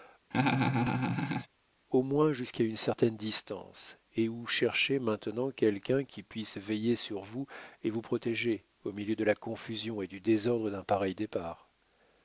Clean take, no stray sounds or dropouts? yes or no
no